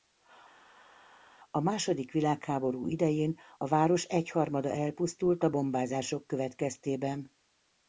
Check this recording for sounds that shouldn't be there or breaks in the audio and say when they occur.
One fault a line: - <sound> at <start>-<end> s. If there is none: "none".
none